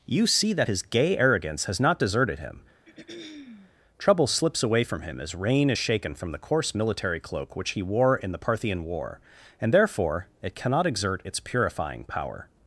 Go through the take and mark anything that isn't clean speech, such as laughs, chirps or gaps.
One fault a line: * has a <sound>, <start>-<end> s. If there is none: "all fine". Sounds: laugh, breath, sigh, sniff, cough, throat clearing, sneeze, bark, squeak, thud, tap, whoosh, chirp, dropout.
* has a throat clearing, 2.8-3.7 s